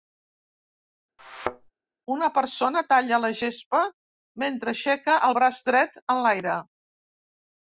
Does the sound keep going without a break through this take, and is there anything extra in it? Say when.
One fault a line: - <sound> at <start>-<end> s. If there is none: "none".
- thud at 1.2-1.7 s